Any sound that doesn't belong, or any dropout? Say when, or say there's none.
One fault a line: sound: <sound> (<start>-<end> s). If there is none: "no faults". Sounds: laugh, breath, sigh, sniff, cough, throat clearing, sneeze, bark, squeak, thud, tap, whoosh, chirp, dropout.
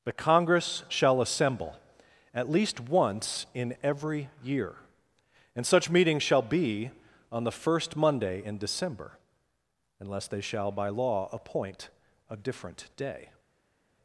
no faults